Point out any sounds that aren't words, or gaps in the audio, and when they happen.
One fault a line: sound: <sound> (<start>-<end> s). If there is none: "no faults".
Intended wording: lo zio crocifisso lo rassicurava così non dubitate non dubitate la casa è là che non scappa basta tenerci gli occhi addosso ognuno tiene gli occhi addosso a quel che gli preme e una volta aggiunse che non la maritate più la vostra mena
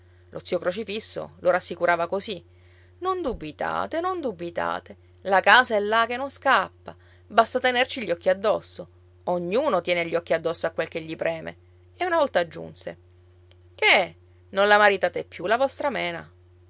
no faults